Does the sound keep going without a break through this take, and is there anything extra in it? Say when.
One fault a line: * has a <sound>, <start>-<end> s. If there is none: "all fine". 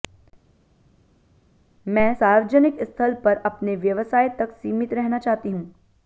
all fine